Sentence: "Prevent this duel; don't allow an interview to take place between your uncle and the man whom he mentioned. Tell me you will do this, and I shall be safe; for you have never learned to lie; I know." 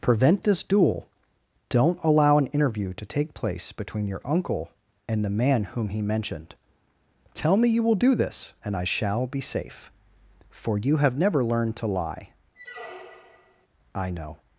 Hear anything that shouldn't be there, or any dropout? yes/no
yes